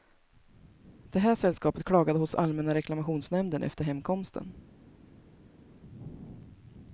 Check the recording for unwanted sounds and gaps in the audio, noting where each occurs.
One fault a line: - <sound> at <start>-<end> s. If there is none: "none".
none